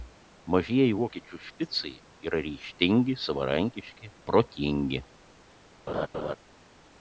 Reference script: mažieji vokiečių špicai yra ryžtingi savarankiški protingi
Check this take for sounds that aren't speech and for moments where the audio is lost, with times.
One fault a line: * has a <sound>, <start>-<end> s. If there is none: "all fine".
* has a laugh, 5.9-6.4 s